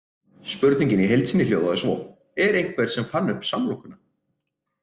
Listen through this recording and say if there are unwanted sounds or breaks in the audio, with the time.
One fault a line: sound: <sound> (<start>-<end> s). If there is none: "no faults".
no faults